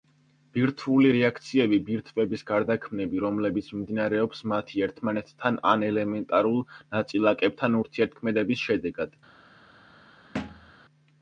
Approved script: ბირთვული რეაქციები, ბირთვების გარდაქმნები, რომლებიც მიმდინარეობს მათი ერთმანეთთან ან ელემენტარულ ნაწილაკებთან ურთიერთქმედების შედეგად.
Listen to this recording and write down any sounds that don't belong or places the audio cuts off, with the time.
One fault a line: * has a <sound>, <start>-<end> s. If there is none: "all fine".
* has a thud, 10.3-10.7 s